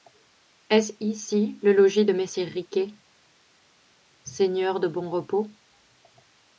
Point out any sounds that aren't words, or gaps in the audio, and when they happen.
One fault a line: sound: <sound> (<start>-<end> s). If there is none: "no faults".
no faults